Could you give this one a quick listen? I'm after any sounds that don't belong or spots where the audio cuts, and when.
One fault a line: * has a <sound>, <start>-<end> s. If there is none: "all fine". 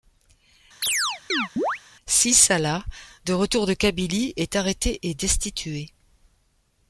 * has a chirp, 0.8-1.8 s